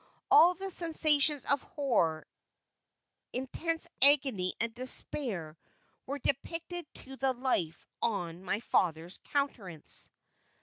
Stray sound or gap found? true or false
false